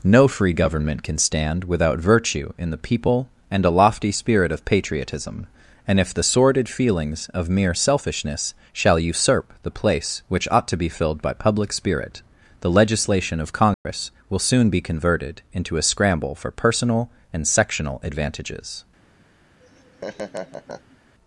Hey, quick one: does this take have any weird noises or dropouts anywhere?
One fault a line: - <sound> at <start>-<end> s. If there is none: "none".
- dropout at 13.7-13.8 s
- laugh at 19.6-21.0 s